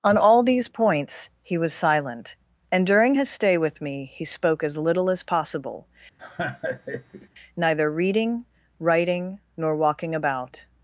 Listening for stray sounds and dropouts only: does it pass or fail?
fail